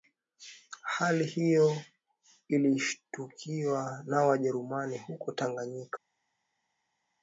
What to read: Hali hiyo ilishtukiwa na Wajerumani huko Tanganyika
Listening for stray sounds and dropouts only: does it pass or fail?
pass